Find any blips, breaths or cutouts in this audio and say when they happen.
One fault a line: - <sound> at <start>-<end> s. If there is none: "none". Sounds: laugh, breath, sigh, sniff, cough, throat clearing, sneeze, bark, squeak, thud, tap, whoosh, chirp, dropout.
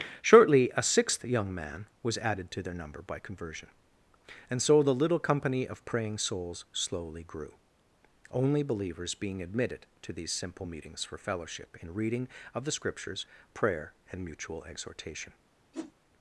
- whoosh at 15.7-15.9 s